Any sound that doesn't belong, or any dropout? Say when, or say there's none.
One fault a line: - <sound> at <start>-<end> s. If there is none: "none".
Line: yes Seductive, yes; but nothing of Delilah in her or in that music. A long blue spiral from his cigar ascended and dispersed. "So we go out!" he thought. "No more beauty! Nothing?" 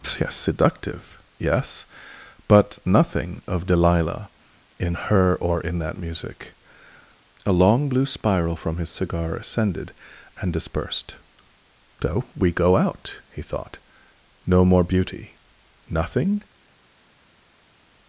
none